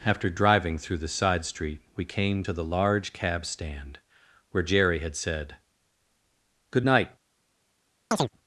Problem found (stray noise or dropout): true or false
true